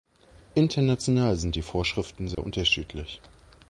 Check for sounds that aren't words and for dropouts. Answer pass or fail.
fail